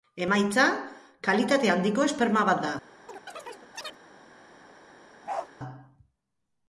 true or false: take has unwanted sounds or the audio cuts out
true